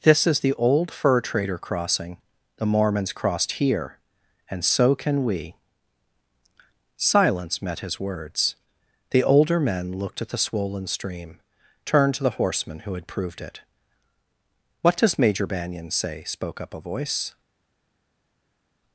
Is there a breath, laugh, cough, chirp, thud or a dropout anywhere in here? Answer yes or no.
no